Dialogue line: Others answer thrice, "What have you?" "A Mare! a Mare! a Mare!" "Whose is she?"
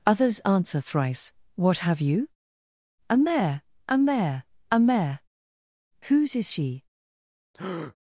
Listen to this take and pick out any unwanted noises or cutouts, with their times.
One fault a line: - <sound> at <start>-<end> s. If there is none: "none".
- breath at 7.5-8.0 s